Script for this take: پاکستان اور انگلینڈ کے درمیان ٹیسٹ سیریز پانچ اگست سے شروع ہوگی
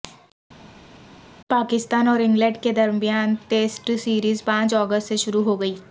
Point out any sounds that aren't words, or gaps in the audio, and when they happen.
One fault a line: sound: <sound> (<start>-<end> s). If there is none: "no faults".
no faults